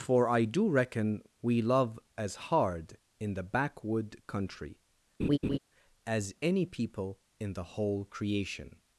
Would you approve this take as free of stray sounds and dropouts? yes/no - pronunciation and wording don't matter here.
no